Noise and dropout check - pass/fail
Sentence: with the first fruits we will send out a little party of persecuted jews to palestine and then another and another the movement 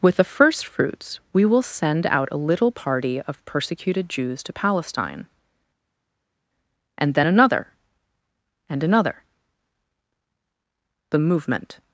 pass